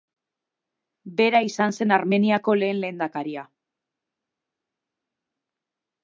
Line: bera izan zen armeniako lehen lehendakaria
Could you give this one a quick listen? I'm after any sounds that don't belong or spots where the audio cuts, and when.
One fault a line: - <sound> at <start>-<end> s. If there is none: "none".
none